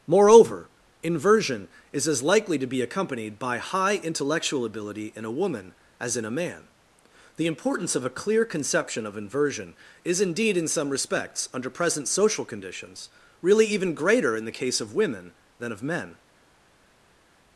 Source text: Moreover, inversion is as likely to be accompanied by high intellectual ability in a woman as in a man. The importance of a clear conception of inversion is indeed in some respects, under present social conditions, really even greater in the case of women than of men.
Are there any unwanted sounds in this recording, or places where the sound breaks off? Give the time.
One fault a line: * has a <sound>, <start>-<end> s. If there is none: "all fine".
all fine